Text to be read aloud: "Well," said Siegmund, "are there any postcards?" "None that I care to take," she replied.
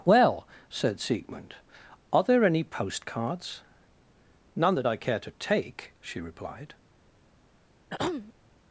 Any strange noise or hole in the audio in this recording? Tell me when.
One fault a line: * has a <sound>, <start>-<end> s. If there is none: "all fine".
* has a throat clearing, 7.9-8.3 s